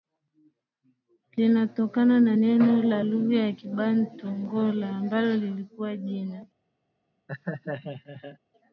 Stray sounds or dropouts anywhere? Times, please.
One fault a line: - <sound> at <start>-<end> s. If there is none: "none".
- laugh at 7.3-8.4 s